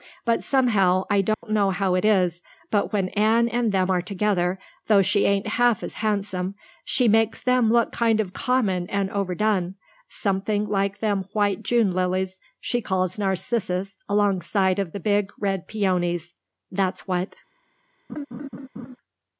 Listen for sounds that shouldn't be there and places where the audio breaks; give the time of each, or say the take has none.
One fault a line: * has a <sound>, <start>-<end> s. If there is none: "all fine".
* has a dropout, 1.3-1.4 s
* has a laugh, 18.1-19.0 s